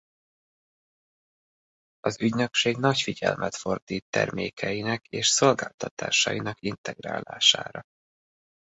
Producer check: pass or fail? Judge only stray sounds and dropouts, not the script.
pass